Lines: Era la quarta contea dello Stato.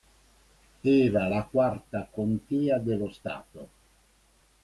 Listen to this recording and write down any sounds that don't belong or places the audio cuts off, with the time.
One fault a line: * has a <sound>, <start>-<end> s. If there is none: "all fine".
all fine